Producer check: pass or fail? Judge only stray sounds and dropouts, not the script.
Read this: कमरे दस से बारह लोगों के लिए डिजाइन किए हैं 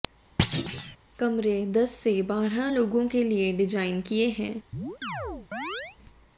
fail